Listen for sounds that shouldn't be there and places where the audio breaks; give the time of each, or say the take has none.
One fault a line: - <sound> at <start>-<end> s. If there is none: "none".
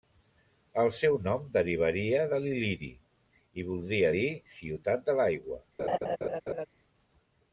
- laugh at 5.8-6.7 s